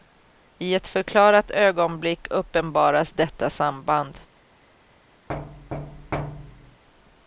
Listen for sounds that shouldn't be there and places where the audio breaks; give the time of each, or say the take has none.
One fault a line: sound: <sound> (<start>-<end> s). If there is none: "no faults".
sound: thud (5.3-6.8 s)